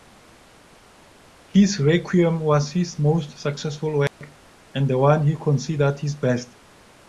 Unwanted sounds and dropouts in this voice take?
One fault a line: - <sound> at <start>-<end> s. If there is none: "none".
- dropout at 4.1-4.2 s